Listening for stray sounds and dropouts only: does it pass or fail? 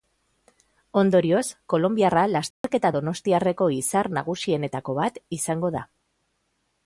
fail